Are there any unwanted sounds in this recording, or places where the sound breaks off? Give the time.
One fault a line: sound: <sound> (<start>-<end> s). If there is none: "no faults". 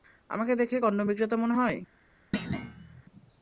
sound: thud (2.3-3.0 s)